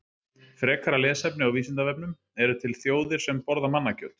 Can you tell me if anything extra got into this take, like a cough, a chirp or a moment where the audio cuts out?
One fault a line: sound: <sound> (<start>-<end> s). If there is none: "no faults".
no faults